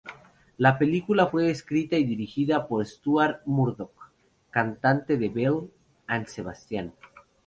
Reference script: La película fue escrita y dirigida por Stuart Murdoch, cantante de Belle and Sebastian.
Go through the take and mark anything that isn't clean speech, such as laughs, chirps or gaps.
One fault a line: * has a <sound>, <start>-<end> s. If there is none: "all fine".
all fine